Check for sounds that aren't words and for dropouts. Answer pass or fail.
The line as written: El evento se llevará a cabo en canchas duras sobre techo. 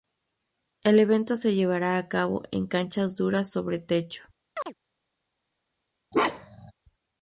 fail